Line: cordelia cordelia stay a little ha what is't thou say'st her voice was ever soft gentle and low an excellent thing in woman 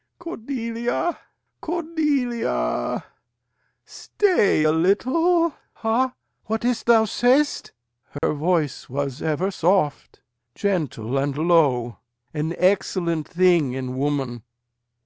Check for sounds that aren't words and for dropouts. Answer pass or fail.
fail